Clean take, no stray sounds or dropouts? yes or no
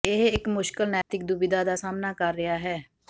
no